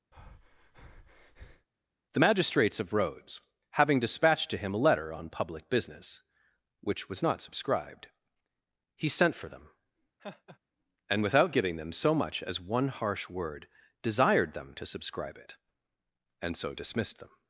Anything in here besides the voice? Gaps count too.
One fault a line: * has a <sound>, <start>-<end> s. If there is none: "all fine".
* has a breath, 0.1-1.7 s
* has a laugh, 10.2-10.6 s